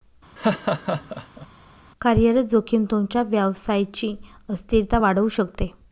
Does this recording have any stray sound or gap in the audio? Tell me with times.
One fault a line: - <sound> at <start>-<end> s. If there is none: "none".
- laugh at 0.4-1.5 s